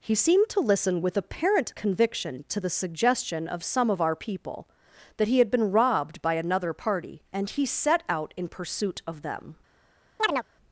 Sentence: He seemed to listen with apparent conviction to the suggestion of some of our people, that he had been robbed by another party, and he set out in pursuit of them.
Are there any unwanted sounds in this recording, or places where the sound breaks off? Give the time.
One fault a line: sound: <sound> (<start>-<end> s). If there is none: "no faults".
sound: chirp (10.2-10.4 s)